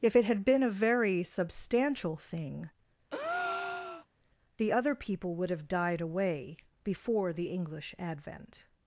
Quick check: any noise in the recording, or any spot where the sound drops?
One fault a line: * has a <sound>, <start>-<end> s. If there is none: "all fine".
* has a breath, 3.1-4.1 s